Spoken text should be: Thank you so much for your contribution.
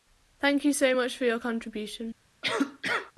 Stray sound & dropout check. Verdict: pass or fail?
fail